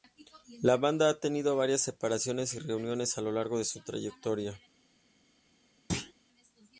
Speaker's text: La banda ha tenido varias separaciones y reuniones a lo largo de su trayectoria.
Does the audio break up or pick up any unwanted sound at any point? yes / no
yes